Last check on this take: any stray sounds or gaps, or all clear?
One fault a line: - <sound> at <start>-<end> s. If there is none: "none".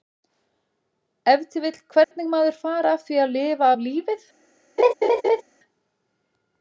- dropout at 2.0-2.1 s
- laugh at 4.8-5.4 s